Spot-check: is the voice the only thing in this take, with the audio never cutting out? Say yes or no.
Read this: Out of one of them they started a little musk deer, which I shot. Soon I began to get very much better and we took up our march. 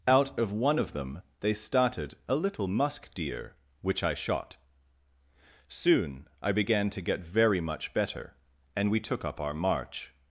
yes